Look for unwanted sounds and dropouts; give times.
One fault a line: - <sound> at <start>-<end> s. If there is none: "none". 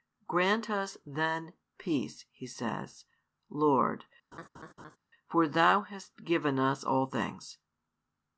- laugh at 4.3-5.0 s